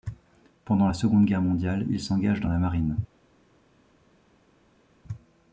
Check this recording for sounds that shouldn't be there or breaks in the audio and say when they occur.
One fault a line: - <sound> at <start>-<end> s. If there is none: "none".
none